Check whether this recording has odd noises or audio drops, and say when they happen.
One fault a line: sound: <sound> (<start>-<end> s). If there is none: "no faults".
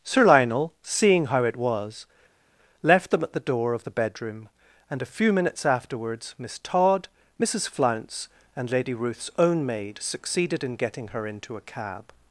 no faults